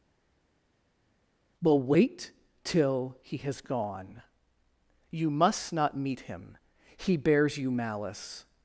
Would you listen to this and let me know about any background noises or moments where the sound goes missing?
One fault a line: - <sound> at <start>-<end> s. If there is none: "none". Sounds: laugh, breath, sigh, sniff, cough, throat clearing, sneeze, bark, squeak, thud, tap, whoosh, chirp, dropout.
none